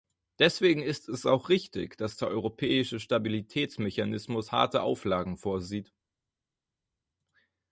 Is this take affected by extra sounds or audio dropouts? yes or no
no